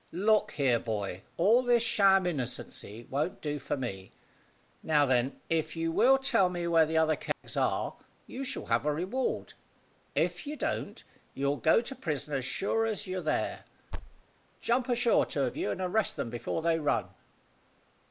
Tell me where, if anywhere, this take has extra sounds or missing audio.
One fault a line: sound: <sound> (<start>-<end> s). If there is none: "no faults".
sound: dropout (7.3-7.4 s)
sound: thud (13.9-14.2 s)